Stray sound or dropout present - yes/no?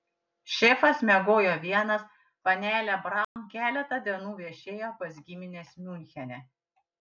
yes